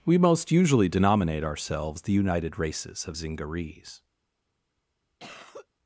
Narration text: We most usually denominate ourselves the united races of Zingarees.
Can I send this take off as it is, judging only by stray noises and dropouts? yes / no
no